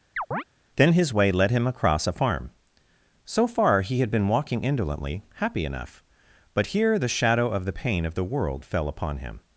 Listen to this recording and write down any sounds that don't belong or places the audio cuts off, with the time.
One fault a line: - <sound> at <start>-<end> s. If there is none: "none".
- chirp at 0.2-0.4 s